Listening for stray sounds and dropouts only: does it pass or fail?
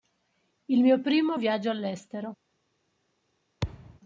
fail